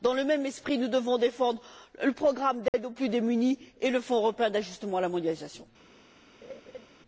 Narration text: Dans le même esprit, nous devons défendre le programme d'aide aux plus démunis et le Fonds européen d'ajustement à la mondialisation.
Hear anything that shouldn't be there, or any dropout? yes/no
yes